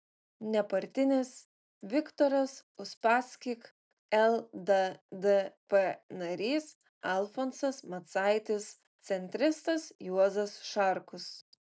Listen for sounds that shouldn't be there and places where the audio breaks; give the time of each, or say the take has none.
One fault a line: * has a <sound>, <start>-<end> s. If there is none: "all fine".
all fine